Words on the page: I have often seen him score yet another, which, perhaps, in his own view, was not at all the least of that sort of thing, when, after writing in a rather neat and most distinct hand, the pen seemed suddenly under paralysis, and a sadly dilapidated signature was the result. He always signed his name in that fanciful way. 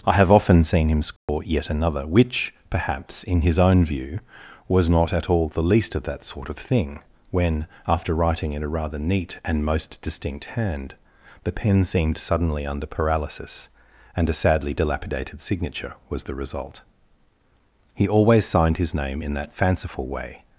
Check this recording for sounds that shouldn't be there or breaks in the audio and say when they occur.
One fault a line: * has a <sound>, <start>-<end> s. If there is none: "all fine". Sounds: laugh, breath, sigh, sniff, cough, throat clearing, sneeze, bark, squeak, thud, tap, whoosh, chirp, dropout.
* has a dropout, 1.2-1.3 s